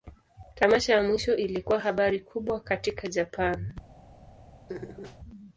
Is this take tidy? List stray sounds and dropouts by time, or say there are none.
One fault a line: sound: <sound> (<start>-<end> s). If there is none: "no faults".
sound: laugh (4.7-5.2 s)